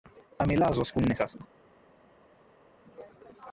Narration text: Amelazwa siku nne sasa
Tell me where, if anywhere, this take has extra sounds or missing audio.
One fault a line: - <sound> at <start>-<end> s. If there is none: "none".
none